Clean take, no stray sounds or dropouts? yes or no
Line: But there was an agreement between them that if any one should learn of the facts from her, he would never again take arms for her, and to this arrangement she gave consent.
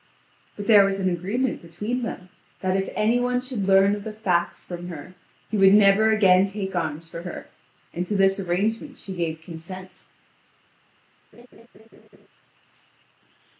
no